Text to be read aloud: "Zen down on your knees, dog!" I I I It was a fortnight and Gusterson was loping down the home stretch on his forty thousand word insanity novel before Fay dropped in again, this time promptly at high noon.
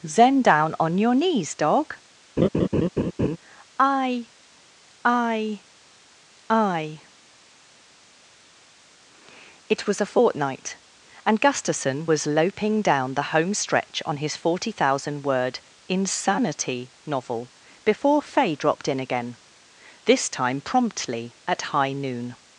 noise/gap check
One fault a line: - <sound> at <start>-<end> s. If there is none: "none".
- laugh at 2.4-3.4 s